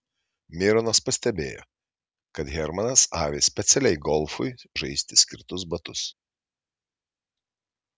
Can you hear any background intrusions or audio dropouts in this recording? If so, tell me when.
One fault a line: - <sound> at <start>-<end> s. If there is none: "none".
none